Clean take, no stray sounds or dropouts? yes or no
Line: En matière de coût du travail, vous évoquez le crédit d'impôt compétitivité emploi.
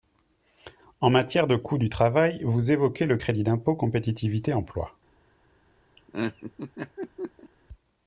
no